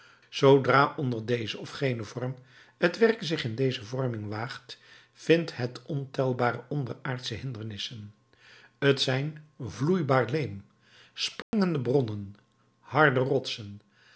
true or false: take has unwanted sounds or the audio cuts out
true